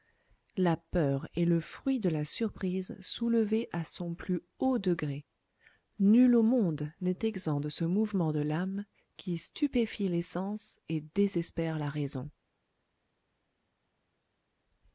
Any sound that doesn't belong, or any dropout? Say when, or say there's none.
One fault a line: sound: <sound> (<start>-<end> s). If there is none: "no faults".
no faults